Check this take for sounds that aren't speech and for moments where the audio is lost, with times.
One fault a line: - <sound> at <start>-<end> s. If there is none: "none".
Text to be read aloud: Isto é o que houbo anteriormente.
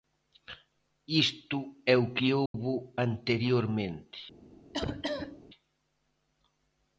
- dropout at 2.5-2.5 s
- cough at 4.7-5.5 s